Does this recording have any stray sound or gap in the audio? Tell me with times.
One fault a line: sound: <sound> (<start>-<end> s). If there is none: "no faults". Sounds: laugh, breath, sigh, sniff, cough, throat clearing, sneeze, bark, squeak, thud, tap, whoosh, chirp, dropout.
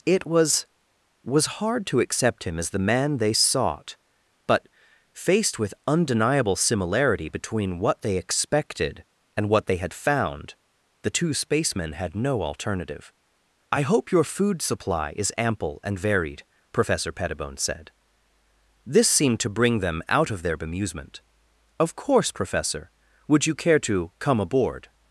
no faults